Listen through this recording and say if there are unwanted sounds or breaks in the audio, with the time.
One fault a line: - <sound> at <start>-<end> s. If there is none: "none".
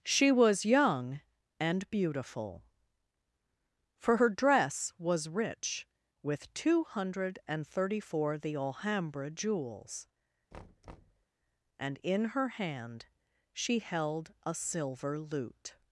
- thud at 10.5-11.3 s